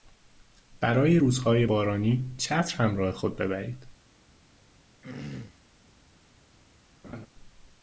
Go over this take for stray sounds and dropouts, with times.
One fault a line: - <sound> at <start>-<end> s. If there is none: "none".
- throat clearing at 5.0-5.6 s
- laugh at 7.0-7.3 s